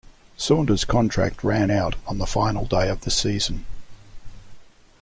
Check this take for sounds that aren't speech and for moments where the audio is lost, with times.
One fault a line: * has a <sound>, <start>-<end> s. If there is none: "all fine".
all fine